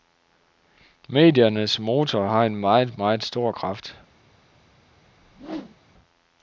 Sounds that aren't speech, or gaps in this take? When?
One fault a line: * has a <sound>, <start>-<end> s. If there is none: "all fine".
* has a whoosh, 5.0-5.8 s